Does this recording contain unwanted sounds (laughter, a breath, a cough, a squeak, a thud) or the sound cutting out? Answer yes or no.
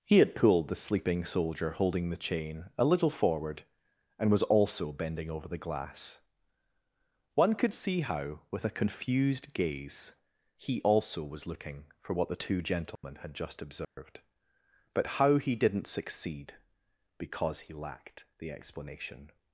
yes